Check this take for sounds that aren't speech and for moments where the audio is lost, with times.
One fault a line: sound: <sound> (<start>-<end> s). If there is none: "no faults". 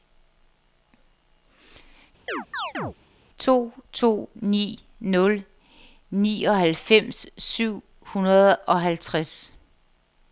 sound: chirp (2.3-2.9 s)